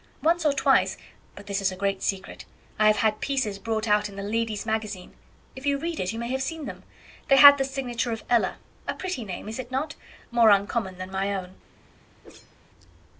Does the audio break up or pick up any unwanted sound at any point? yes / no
yes